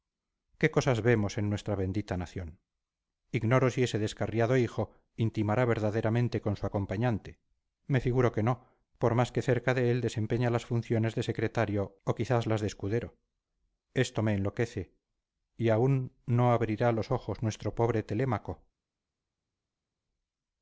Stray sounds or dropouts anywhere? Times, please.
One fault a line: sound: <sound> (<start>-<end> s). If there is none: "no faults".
no faults